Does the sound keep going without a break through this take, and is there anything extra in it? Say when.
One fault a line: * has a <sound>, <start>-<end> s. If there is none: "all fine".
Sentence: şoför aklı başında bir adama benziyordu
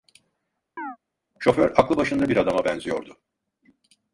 * has a chirp, 0.8-1.0 s